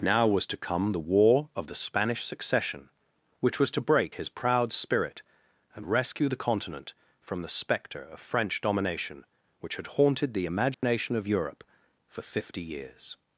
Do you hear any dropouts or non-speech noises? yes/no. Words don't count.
yes